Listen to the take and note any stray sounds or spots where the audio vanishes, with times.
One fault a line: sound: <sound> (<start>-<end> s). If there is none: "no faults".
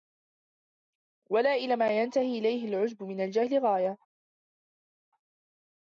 no faults